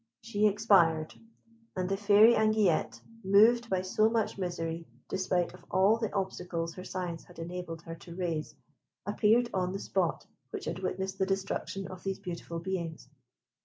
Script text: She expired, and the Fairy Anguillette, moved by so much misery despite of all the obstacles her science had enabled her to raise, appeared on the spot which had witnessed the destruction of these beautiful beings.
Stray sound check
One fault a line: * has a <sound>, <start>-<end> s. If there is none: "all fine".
all fine